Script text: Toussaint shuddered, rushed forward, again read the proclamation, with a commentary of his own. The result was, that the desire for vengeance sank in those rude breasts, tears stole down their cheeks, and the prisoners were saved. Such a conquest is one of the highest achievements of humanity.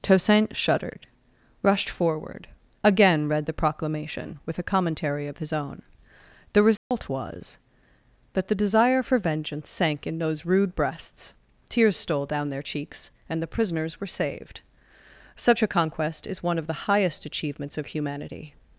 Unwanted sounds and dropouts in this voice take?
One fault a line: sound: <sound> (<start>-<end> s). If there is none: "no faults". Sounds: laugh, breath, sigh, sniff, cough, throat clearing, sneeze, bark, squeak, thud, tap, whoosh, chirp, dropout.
sound: dropout (6.8-6.9 s)